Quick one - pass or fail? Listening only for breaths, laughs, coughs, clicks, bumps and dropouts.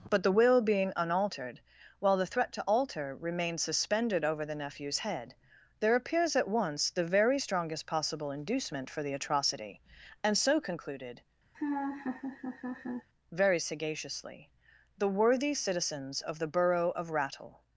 fail